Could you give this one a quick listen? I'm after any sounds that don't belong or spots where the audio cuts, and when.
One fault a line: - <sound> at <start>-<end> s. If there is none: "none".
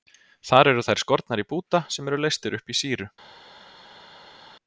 none